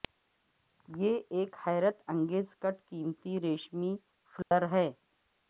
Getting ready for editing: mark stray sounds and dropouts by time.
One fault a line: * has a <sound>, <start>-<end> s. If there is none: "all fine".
* has a dropout, 4.4-4.5 s